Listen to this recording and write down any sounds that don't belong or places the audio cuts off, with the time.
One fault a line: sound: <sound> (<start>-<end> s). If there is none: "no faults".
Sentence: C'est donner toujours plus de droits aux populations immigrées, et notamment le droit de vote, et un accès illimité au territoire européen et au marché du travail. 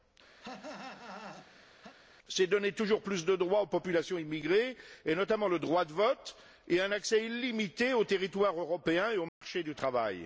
sound: cough (0.4-2.0 s)
sound: dropout (9.3-9.4 s)